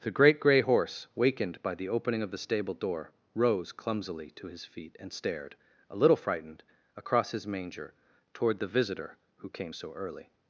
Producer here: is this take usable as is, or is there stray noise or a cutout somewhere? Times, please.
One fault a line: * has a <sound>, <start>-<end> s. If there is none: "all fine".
all fine